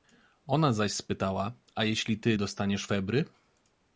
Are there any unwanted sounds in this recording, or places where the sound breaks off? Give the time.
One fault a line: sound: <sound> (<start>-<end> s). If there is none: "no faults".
no faults